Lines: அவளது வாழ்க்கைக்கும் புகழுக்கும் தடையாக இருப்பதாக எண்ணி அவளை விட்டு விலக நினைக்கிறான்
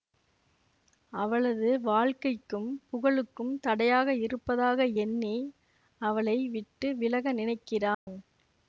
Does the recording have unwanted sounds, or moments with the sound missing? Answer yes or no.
yes